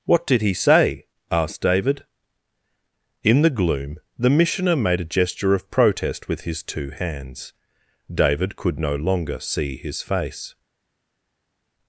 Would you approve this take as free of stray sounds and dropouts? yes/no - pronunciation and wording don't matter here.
yes